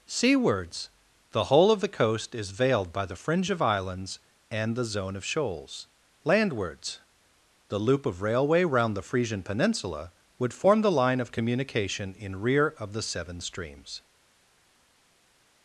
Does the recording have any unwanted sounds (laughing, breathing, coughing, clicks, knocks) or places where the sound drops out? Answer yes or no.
no